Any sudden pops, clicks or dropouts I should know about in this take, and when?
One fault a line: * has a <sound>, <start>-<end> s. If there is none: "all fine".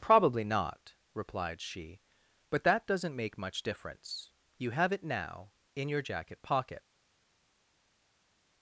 all fine